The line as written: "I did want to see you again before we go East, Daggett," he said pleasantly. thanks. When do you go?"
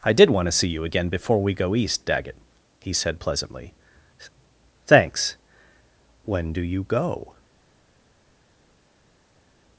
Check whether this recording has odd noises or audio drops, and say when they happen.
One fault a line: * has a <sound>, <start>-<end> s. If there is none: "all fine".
all fine